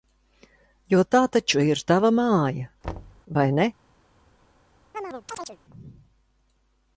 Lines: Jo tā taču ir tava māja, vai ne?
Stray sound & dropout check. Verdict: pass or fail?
fail